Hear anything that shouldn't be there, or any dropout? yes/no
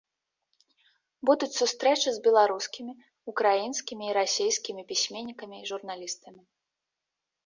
no